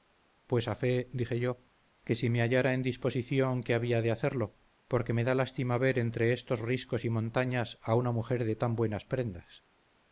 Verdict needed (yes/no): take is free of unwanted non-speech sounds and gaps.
yes